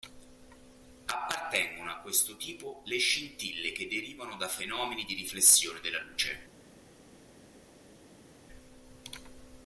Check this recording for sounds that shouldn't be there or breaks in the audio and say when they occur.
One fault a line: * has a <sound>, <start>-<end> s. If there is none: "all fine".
all fine